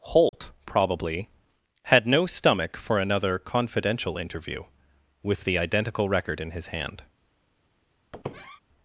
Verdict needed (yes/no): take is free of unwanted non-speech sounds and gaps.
no